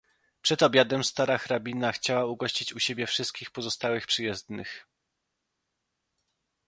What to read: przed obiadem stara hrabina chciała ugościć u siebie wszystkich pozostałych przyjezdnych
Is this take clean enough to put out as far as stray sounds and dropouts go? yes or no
yes